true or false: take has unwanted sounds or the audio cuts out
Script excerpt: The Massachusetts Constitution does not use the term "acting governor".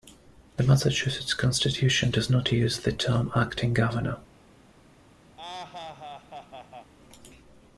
true